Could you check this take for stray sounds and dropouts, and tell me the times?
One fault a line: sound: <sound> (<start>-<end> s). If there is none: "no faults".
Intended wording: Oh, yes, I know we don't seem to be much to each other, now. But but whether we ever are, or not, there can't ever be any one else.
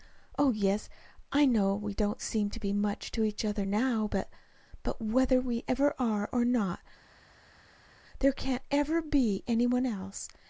no faults